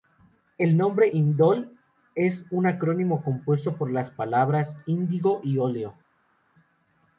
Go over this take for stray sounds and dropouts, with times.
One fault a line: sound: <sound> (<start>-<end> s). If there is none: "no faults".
no faults